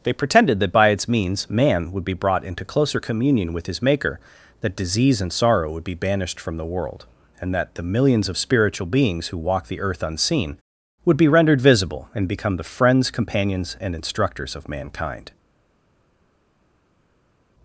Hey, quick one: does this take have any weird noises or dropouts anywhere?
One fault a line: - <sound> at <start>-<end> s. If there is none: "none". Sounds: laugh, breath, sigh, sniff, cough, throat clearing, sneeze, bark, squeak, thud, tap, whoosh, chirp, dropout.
none